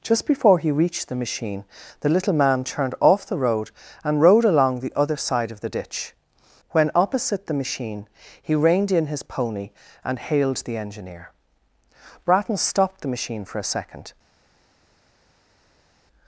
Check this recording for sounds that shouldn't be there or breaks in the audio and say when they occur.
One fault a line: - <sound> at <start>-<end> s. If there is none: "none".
none